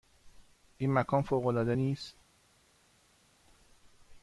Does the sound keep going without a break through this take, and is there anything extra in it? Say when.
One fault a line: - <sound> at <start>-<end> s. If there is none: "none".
none